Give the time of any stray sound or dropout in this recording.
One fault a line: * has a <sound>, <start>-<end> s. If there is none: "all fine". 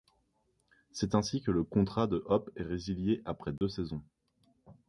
* has a dropout, 3.6-3.6 s